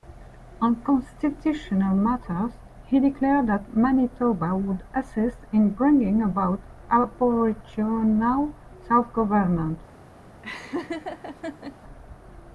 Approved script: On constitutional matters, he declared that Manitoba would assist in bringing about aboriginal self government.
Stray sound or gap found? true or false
true